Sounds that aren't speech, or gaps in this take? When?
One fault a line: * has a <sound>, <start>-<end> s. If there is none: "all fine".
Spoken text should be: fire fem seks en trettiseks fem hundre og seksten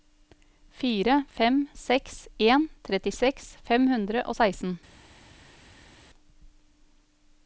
all fine